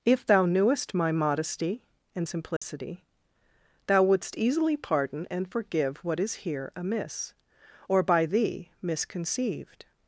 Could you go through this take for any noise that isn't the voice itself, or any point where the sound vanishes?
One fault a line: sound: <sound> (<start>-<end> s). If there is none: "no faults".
sound: dropout (2.6-2.6 s)